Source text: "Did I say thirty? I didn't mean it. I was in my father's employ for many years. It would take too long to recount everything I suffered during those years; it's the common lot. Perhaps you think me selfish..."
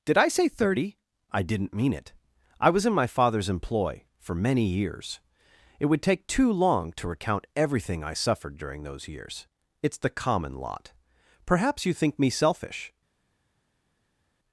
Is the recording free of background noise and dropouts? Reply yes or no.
yes